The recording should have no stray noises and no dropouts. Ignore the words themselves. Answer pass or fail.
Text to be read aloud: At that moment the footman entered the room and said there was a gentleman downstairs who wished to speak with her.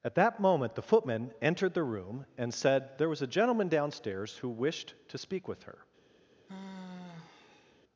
fail